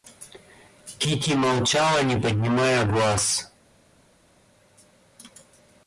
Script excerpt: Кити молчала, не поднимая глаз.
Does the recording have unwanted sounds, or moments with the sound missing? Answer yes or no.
no